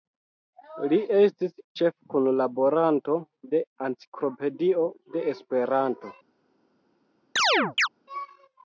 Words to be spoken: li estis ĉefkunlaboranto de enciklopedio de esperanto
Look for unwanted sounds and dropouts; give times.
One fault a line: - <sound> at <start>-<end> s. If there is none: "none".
- chirp at 7.4-7.9 s